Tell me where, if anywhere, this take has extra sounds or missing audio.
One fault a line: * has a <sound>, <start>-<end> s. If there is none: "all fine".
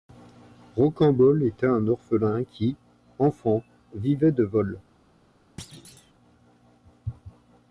* has a thud, 5.6-6.1 s